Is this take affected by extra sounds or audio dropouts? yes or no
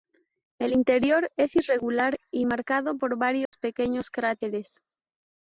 yes